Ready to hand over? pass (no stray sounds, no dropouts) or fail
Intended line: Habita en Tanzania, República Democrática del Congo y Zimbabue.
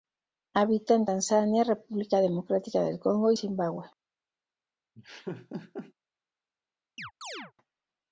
fail